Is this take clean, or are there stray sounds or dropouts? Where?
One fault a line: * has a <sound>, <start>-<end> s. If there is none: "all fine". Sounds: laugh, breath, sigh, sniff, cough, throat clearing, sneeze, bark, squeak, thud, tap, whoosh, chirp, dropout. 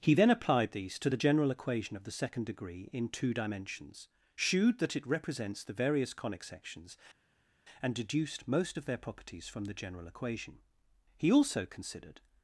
all fine